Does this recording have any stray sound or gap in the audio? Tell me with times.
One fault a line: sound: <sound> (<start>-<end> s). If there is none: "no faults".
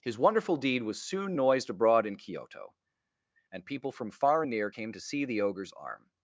no faults